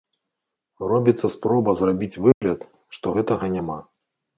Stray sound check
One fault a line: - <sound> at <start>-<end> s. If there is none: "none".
- dropout at 2.3-2.4 s